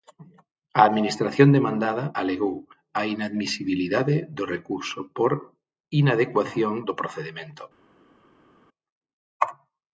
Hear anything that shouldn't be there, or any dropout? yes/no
no